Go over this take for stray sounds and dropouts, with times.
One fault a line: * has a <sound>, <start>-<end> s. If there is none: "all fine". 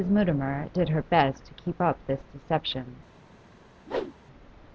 * has a whoosh, 3.9-4.1 s